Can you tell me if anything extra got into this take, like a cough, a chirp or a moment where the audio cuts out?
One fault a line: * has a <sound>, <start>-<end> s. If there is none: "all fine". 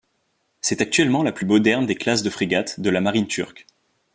all fine